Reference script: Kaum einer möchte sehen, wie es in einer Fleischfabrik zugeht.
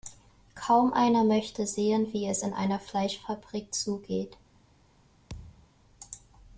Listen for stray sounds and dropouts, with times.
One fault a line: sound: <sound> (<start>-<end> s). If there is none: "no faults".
sound: thud (5.3-5.7 s)